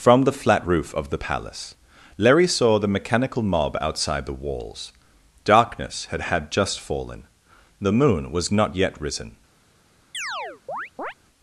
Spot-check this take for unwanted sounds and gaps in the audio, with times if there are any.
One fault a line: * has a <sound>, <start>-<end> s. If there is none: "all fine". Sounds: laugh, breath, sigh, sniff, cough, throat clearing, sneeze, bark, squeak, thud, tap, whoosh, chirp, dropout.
* has a chirp, 10.1-11.1 s